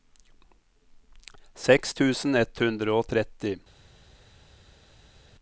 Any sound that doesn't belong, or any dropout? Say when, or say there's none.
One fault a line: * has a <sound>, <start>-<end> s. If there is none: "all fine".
all fine